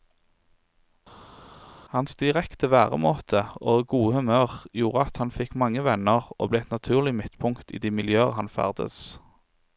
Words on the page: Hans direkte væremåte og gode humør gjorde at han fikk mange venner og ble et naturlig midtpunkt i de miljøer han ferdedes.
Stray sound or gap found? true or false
false